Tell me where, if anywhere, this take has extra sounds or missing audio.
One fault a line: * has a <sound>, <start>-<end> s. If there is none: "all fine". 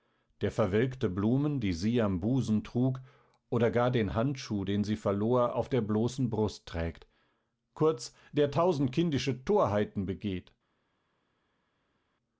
all fine